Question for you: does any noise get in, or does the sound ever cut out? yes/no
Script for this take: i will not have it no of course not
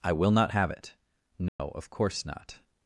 yes